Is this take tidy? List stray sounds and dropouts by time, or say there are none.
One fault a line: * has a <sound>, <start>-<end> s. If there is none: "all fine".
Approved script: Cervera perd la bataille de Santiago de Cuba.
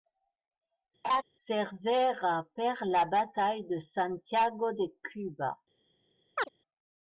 * has a laugh, 1.0-1.2 s
* has a chirp, 6.4-6.5 s